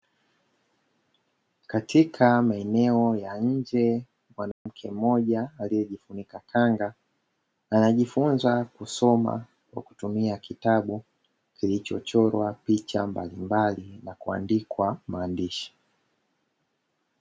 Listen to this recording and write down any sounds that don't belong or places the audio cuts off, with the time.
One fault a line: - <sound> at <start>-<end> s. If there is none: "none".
- dropout at 4.5-4.7 s